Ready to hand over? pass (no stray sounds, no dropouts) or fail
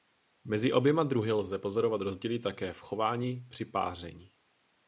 pass